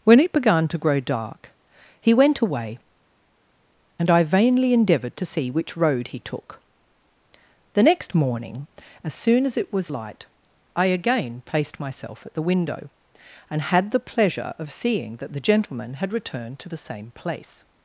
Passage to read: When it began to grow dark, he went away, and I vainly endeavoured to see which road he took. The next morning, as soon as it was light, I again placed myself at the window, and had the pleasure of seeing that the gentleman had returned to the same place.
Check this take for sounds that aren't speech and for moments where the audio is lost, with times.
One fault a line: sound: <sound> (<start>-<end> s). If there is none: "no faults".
no faults